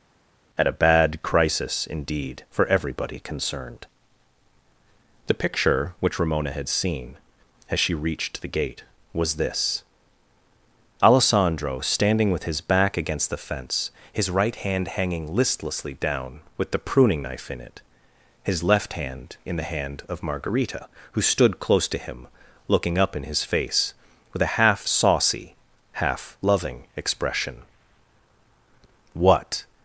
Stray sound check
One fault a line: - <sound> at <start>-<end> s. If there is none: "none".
none